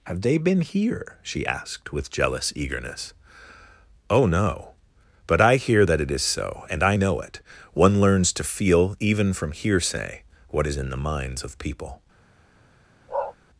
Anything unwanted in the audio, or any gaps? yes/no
yes